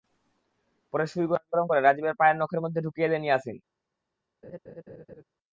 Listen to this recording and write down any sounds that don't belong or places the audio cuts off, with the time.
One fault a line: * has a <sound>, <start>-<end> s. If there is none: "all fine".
* has a laugh, 4.4-5.2 s